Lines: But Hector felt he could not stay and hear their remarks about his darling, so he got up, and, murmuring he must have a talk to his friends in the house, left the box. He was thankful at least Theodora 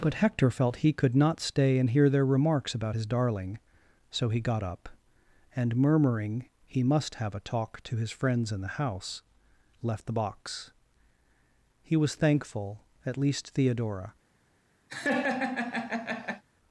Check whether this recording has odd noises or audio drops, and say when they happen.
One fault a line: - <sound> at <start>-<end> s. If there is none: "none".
- laugh at 14.9-16.4 s